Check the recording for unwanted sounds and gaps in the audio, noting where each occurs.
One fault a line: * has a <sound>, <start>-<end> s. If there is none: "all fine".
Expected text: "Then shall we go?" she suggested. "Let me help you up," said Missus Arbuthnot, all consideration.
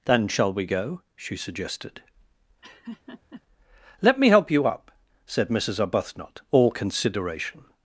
* has a laugh, 2.6-3.4 s